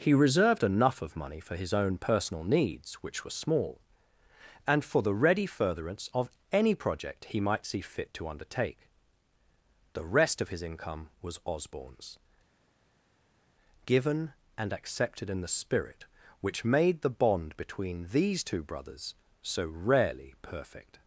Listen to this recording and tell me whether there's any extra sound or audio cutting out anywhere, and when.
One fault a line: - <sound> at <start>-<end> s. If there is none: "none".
none